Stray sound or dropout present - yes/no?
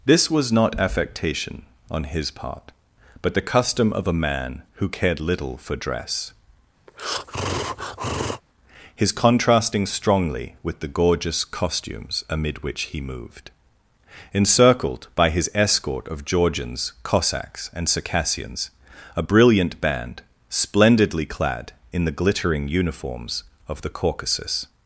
yes